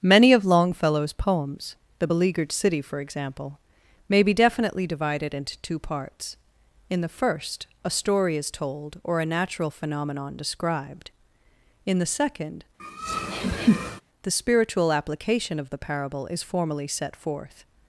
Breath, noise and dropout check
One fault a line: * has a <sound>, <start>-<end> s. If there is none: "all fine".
* has a laugh, 12.8-14.0 s